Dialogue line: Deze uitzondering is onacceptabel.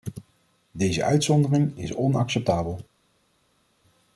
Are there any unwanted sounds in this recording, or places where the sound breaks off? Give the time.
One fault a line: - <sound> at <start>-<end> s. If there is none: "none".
none